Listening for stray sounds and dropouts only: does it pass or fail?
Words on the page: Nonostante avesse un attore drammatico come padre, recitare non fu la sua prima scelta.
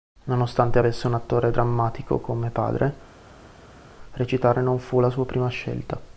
pass